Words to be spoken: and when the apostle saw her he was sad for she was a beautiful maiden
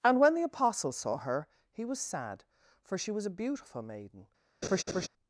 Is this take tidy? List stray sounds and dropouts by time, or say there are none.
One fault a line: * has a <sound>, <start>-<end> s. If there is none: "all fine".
* has a laugh, 4.6-5.1 s